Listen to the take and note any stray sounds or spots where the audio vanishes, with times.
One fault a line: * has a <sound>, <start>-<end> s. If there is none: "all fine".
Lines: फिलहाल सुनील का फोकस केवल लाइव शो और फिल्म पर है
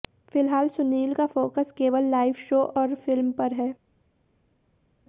all fine